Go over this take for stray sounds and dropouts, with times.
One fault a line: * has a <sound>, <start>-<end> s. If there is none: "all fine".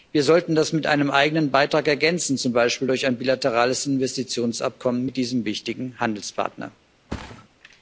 * has a thud, 7.1-7.5 s